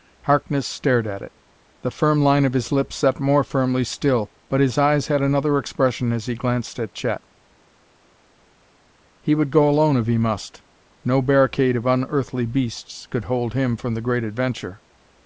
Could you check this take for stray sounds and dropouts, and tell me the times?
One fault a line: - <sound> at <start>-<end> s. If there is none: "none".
none